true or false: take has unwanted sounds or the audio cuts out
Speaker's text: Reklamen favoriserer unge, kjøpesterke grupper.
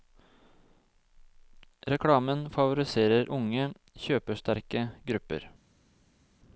false